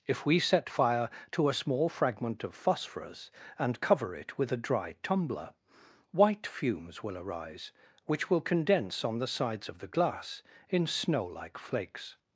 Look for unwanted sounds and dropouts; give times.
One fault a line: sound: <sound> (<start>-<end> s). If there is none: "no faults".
no faults